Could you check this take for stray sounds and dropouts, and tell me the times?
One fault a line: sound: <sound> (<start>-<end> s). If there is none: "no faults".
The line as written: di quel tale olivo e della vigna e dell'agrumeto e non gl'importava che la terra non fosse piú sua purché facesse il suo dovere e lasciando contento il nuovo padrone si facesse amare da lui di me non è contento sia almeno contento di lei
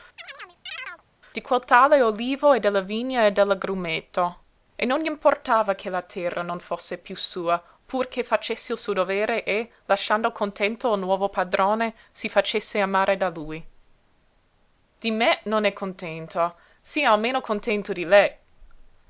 sound: chirp (0.2-1.0 s)